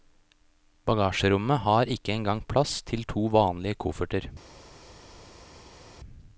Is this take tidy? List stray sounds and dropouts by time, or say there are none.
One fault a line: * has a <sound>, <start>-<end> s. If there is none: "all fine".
all fine